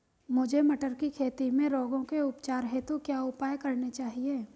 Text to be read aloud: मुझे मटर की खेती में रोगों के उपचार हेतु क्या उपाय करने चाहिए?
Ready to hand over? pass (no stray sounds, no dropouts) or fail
pass